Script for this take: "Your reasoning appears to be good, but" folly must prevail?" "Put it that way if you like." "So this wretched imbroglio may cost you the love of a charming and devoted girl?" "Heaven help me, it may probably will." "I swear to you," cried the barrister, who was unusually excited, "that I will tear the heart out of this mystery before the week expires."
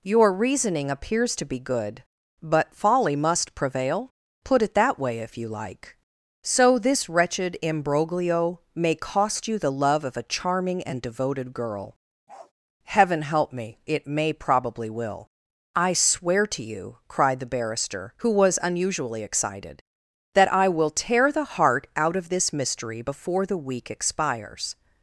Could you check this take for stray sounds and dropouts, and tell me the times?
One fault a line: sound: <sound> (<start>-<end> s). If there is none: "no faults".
sound: bark (12.3-12.5 s)